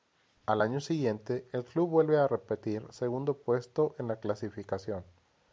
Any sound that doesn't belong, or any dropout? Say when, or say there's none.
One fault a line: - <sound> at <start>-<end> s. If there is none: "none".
none